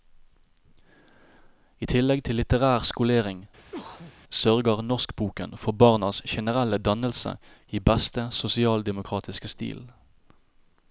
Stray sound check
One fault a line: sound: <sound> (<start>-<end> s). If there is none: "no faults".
sound: sneeze (3.6-4.1 s)